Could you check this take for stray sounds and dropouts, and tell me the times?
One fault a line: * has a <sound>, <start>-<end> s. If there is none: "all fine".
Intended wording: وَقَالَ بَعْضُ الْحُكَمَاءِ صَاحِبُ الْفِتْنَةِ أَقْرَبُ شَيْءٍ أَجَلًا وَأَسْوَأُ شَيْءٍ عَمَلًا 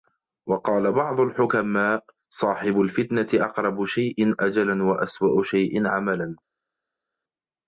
all fine